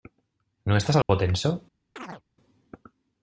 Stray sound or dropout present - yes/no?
yes